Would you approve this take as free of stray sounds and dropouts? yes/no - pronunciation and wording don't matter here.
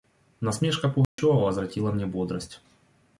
no